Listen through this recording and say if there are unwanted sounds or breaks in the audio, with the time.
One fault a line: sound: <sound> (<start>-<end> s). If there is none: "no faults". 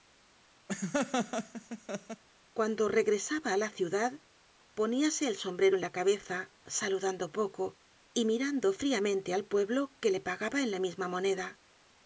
sound: laugh (0.7-2.2 s)